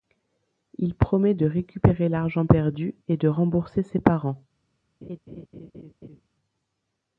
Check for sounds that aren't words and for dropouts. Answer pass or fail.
fail